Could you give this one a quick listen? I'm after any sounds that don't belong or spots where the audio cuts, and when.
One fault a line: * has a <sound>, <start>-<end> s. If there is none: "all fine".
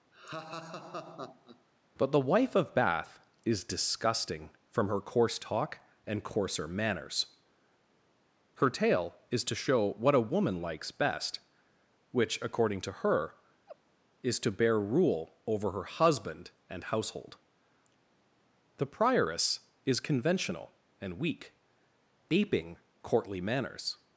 * has a laugh, 0.1-1.6 s
* has a laugh, 13.7-13.8 s